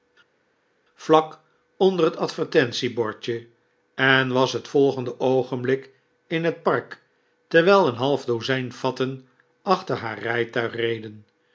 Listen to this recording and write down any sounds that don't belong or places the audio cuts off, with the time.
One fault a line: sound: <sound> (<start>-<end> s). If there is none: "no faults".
no faults